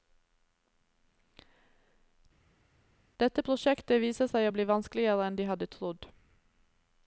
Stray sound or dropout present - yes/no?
no